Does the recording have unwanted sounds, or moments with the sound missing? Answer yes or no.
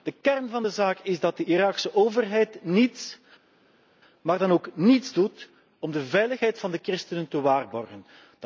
no